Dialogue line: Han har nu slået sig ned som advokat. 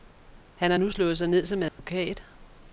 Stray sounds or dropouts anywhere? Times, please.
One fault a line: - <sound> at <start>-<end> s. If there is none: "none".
- dropout at 1.7-1.8 s